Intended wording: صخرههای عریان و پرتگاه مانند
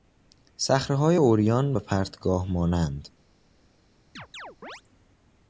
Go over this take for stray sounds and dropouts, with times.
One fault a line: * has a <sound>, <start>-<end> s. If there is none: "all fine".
* has a chirp, 4.2-4.8 s